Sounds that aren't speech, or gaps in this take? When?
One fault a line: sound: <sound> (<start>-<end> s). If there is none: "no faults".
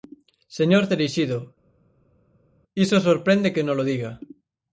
no faults